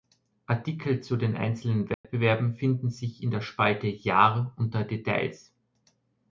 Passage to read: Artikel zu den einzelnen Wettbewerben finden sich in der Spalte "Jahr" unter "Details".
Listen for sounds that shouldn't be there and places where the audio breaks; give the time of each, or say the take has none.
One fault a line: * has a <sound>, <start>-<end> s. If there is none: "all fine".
* has a dropout, 1.9-2.0 s